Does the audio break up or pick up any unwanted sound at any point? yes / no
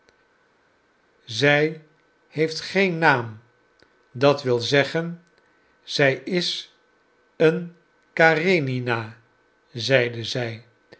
no